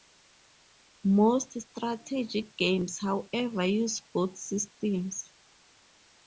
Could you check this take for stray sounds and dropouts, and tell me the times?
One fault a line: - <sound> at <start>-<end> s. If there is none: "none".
none